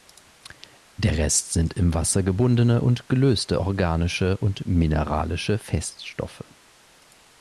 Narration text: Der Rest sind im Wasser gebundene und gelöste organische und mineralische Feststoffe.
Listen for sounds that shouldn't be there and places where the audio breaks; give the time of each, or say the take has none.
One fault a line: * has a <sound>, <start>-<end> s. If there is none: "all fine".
all fine